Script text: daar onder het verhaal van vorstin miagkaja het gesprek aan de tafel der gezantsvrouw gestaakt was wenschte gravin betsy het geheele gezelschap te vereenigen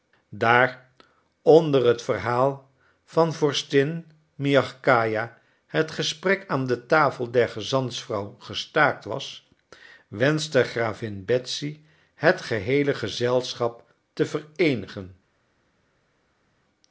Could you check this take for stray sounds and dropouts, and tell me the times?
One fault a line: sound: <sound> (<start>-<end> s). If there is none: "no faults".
no faults